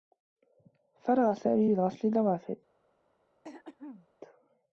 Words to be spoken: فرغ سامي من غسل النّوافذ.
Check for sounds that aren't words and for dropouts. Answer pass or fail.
fail